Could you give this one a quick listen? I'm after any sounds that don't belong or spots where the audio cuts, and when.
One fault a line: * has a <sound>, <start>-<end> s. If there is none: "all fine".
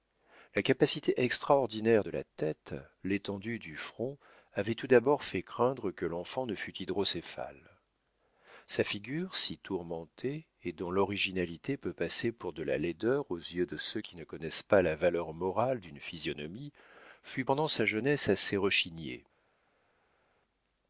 all fine